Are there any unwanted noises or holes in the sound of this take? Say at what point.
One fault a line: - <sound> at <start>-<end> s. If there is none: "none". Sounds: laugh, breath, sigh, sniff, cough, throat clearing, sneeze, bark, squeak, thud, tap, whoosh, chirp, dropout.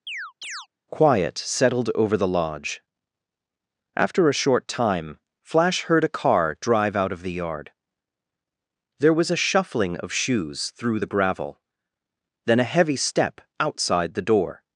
- chirp at 0.1-0.7 s